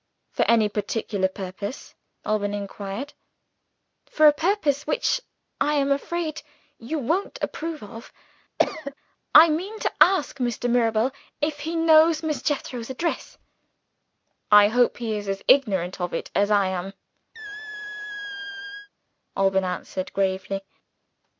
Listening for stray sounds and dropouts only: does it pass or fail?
fail